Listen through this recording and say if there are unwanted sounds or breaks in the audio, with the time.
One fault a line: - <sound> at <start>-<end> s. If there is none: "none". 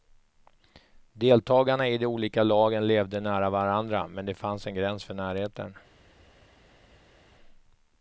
none